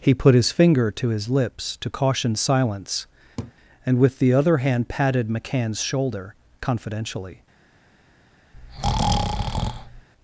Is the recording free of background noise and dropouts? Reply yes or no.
no